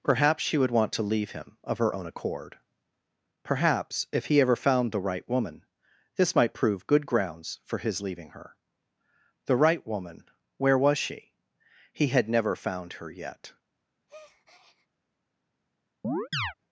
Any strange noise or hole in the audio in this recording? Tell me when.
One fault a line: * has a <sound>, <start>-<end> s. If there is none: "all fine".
* has a breath, 14.1-14.9 s
* has a chirp, 16.0-16.5 s